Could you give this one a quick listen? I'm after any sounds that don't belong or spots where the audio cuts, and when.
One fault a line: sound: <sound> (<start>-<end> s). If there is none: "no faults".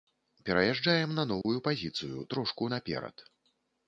sound: dropout (1.4-1.5 s)